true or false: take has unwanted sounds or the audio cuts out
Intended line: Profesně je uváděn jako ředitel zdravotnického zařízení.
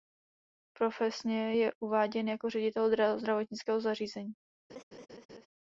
true